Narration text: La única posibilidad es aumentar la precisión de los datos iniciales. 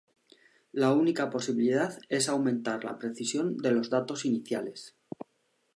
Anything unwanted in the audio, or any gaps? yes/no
no